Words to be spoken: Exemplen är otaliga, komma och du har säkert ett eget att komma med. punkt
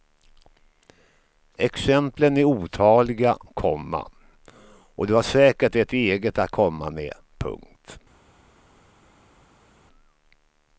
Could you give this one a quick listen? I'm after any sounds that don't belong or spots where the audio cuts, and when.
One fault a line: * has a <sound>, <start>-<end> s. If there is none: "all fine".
all fine